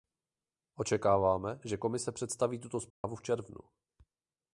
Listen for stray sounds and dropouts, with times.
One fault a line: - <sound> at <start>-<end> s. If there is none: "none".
- dropout at 2.9-3.0 s